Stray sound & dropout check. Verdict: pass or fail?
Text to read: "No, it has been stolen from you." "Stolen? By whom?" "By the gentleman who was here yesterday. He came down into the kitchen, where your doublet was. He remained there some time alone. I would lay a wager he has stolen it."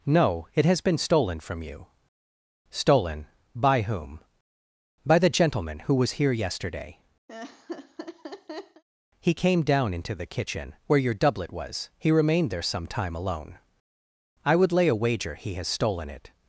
fail